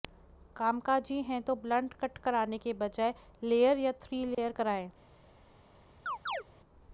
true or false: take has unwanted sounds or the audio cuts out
true